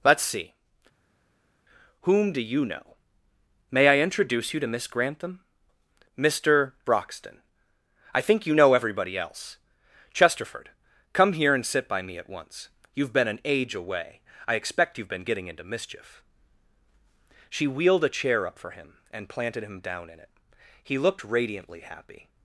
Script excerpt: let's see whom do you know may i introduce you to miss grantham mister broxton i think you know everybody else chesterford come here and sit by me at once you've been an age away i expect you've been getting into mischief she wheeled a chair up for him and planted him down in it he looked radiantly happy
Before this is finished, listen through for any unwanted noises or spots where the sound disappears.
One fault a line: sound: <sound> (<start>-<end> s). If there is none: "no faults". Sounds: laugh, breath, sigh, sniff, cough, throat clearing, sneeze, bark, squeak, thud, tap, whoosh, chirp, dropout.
no faults